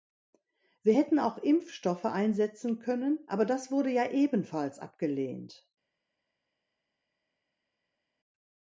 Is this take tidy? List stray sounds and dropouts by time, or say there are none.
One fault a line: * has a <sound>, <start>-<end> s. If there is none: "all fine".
all fine